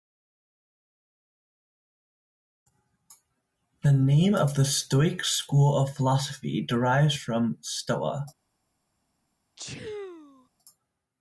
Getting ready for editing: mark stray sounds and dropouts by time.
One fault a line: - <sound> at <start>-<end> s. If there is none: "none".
- sneeze at 9.6-10.5 s